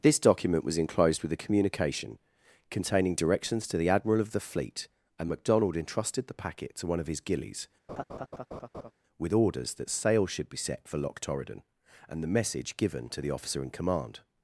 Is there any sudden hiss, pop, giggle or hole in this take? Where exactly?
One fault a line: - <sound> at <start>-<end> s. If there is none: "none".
- laugh at 7.9-8.9 s